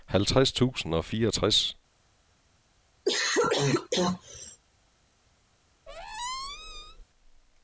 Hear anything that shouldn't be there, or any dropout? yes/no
yes